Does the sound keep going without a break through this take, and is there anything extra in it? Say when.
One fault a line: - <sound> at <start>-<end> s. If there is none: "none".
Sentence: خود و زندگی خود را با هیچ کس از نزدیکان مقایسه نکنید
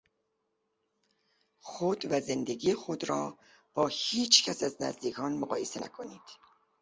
none